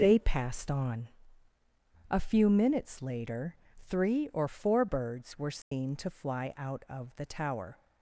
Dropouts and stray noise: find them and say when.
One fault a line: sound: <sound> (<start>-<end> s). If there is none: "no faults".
sound: dropout (5.6-5.7 s)